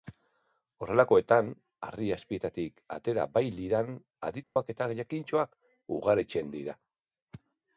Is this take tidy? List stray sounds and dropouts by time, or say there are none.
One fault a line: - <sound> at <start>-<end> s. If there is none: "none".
- dropout at 4.4-4.6 s